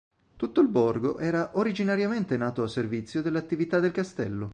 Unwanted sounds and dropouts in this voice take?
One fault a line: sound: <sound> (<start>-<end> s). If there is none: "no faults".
no faults